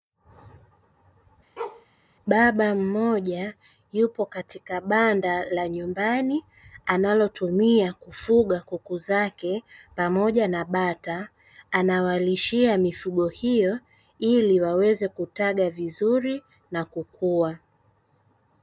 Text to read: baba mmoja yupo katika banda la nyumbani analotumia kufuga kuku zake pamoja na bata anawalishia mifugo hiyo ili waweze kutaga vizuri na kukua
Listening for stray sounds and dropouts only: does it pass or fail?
fail